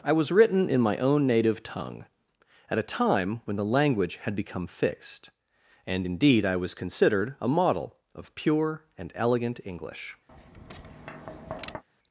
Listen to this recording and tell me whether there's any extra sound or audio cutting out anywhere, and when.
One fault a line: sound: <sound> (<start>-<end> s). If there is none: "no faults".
sound: tap (10.3-11.8 s)